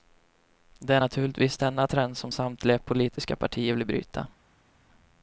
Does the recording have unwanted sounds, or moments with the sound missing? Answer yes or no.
no